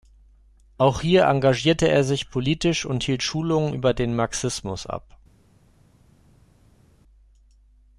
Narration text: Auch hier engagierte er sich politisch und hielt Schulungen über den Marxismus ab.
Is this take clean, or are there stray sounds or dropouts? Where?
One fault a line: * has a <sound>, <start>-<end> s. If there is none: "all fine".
all fine